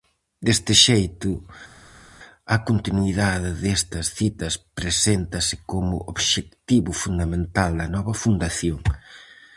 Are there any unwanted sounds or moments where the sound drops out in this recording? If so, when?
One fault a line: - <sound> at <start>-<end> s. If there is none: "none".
none